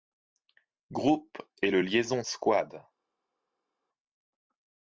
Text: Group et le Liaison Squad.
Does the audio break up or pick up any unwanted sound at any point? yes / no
no